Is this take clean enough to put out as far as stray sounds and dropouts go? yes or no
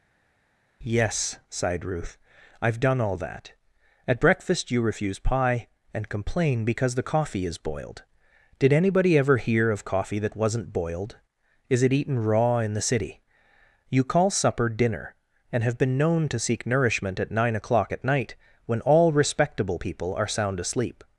yes